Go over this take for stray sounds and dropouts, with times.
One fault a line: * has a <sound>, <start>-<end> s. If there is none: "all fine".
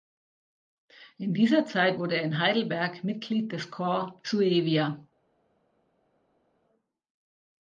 all fine